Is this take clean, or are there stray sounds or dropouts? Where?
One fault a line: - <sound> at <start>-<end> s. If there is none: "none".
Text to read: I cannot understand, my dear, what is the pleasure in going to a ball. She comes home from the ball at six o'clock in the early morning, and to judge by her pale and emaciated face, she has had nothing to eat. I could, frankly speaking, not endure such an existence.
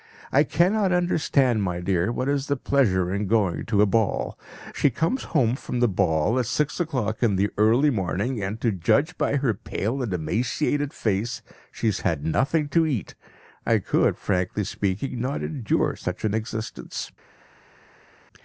none